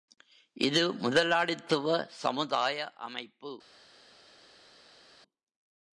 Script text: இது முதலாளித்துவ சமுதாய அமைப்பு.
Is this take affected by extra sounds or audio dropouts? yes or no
no